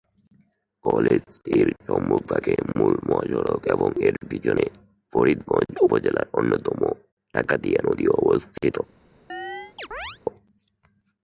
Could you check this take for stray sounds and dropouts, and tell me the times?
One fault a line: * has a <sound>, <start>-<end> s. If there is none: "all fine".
* has a chirp, 9.3-10.2 s